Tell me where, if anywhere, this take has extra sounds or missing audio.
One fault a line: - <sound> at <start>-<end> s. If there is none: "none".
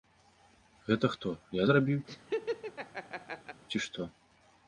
- laugh at 2.1-3.6 s